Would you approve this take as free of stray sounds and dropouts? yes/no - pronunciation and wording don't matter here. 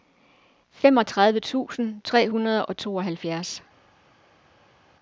yes